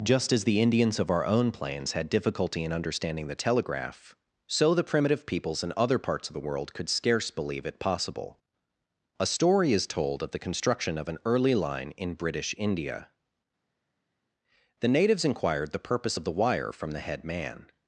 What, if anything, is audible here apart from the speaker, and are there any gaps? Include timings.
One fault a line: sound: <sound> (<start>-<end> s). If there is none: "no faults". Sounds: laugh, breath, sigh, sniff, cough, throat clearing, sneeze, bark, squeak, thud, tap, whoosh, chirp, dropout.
no faults